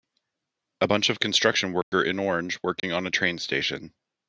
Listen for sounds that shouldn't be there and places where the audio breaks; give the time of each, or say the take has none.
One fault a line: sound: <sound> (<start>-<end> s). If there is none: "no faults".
sound: dropout (1.8-1.9 s)
sound: dropout (2.8-2.8 s)